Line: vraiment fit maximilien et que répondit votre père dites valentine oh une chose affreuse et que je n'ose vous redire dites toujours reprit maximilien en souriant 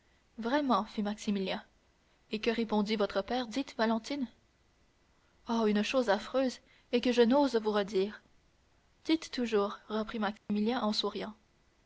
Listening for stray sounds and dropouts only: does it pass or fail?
fail